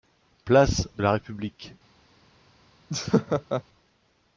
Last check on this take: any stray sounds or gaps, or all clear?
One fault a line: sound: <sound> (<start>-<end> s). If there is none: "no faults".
sound: laugh (2.9-3.6 s)